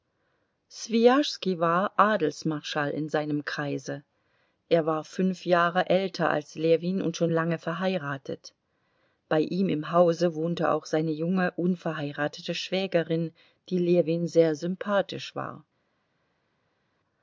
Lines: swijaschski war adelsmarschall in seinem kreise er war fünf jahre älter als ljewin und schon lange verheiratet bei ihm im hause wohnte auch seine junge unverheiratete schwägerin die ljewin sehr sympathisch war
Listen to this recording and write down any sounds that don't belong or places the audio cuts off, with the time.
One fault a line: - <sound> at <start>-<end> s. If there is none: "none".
none